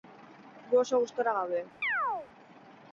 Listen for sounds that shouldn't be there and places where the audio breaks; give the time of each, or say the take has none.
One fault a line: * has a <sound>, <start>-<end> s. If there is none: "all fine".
* has a chirp, 1.8-2.3 s